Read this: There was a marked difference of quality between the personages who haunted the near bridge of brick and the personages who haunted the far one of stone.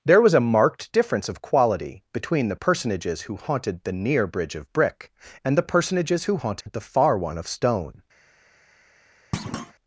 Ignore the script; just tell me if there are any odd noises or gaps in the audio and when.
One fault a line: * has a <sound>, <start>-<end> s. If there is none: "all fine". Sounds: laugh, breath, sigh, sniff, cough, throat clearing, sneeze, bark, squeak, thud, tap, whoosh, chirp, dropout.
* has a dropout, 6.6-6.7 s
* has a thud, 9.3-9.7 s